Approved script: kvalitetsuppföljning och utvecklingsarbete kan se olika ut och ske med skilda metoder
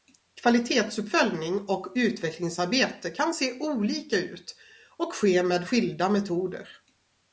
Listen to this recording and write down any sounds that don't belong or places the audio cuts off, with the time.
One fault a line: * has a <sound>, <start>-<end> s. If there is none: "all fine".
all fine